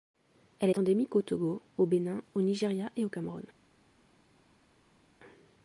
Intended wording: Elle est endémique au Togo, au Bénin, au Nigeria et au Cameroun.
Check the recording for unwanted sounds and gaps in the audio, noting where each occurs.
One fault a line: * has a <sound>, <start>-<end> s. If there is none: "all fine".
all fine